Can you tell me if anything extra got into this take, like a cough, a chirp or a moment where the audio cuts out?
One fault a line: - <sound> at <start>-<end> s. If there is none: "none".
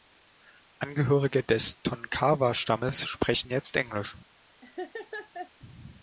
- laugh at 4.6-5.5 s